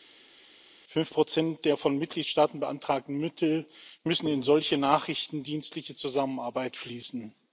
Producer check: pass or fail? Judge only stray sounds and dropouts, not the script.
pass